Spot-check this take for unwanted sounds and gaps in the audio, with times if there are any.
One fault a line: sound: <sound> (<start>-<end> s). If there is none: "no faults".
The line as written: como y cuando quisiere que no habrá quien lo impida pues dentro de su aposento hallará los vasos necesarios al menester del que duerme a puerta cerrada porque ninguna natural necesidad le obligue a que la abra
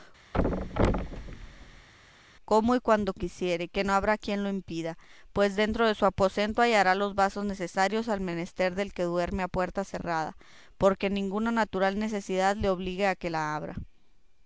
sound: thud (0.3-1.9 s)